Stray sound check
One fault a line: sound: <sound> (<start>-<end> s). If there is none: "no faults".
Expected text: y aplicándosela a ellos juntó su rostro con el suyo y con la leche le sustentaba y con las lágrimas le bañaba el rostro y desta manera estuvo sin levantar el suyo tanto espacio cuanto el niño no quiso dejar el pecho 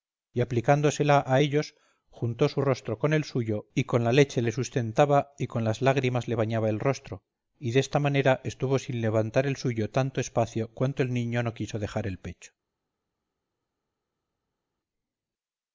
no faults